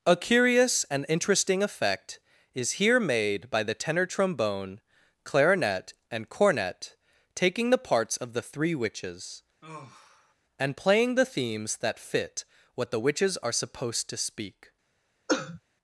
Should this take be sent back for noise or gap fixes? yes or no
yes